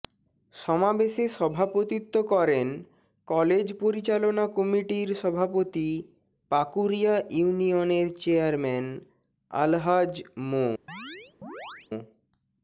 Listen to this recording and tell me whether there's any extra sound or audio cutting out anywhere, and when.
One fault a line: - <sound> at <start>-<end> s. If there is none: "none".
- chirp at 10.9-11.9 s